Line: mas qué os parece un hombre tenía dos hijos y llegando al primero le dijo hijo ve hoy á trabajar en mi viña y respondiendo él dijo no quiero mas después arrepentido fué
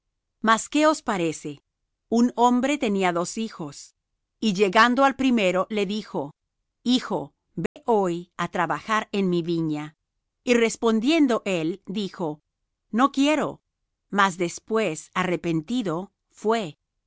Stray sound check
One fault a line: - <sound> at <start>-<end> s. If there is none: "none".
- dropout at 7.7-7.8 s